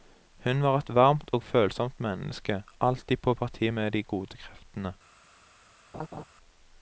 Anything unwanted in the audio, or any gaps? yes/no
yes